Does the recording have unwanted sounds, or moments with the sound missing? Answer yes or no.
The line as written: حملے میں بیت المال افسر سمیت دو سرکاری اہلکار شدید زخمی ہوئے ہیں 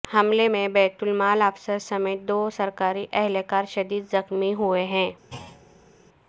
yes